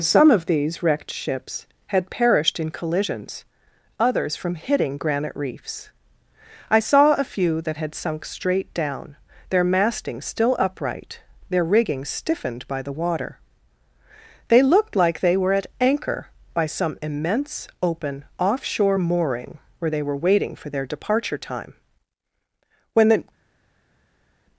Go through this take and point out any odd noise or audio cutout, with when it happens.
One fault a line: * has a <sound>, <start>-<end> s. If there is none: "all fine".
all fine